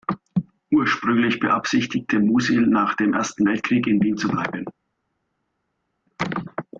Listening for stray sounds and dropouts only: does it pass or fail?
pass